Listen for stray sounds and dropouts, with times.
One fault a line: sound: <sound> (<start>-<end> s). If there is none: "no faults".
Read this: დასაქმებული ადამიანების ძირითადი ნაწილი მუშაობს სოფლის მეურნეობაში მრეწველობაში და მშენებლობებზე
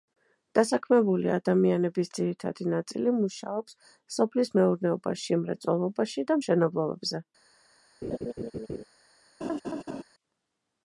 sound: laugh (8.0-8.8 s)
sound: laugh (9.4-10.0 s)